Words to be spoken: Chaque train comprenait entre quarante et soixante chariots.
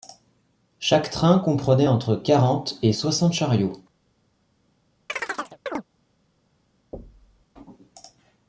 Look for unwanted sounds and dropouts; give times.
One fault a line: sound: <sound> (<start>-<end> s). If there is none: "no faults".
sound: chirp (5.1-5.8 s)
sound: thud (6.9-7.5 s)